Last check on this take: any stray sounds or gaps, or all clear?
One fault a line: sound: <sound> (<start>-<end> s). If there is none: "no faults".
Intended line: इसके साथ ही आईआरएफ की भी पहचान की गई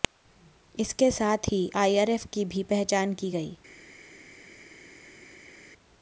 no faults